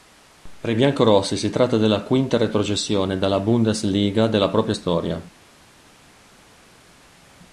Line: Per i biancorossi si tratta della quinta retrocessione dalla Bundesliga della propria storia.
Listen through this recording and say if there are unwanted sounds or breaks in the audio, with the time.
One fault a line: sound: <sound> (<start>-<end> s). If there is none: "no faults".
no faults